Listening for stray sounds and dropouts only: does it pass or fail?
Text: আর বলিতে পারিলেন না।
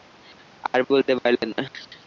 pass